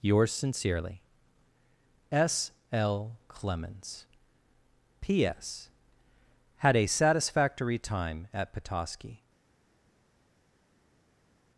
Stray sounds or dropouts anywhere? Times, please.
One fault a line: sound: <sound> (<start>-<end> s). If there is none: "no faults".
no faults